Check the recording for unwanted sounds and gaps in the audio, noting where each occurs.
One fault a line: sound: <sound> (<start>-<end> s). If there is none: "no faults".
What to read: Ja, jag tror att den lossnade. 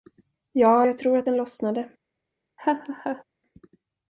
sound: laugh (2.6-3.2 s)